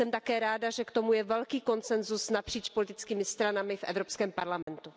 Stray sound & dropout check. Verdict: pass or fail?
fail